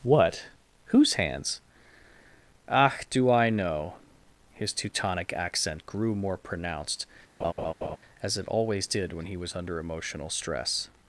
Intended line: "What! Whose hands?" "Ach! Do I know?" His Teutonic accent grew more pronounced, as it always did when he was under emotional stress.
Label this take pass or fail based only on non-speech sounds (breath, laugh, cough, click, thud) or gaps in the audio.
fail